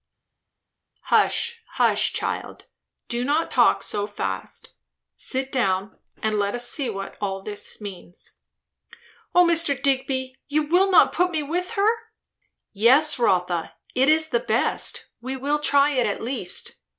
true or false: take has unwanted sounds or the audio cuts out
false